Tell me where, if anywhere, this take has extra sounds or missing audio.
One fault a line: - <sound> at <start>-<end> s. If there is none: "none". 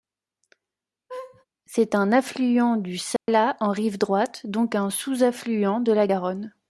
- laugh at 1.1-1.5 s
- dropout at 3.2-3.3 s